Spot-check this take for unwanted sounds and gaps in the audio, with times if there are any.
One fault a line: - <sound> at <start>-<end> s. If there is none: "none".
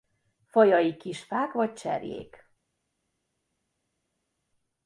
none